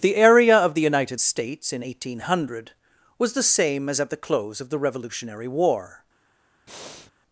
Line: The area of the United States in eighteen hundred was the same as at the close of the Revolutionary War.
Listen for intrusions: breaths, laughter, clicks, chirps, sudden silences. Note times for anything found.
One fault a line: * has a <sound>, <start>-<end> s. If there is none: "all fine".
* has a breath, 6.7-7.1 s